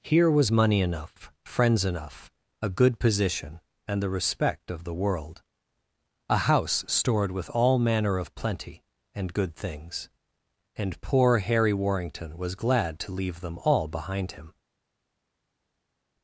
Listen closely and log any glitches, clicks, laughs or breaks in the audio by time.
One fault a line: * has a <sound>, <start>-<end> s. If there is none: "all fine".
all fine